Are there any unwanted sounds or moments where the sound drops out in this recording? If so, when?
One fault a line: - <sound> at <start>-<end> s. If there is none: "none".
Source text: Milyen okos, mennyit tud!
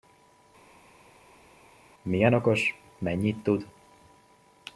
none